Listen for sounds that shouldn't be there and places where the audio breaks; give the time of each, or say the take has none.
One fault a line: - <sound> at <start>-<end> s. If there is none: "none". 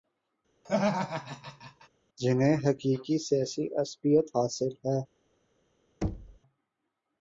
- laugh at 0.6-1.9 s
- thud at 6.0-6.4 s